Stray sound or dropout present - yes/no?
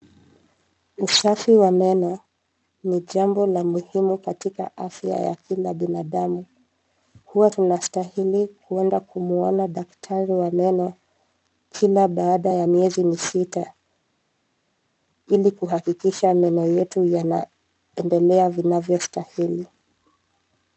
no